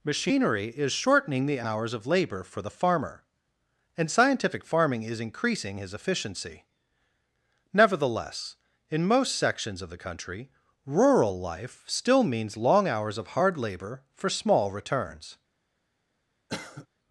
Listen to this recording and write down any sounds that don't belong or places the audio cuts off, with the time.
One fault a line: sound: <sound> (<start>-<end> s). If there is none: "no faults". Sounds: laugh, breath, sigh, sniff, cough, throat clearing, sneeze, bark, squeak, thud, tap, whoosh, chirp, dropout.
sound: cough (16.5-16.9 s)